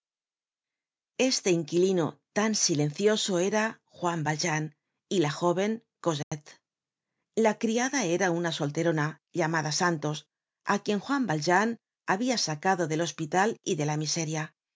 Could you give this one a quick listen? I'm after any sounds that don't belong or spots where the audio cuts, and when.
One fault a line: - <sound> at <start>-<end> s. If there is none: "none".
- dropout at 6.2-6.3 s